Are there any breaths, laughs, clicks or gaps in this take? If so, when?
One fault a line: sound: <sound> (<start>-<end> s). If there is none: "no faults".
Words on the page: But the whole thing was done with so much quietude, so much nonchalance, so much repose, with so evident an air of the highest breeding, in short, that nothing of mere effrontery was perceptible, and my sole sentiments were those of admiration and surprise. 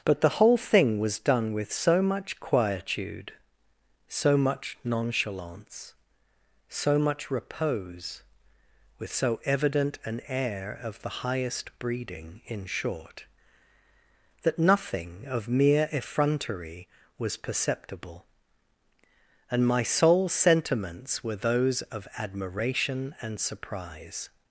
no faults